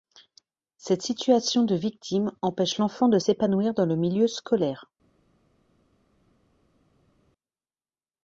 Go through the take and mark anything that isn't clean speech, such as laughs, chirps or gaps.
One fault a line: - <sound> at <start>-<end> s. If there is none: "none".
none